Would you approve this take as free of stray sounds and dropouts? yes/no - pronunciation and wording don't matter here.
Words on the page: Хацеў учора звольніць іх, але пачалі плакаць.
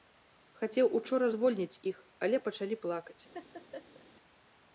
no